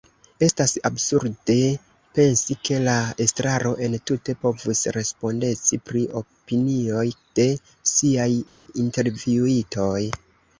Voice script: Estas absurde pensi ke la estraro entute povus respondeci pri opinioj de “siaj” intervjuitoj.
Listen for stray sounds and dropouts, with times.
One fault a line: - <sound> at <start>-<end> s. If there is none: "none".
none